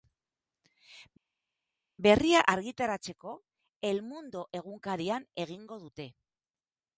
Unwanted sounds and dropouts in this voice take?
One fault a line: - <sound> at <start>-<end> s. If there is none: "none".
none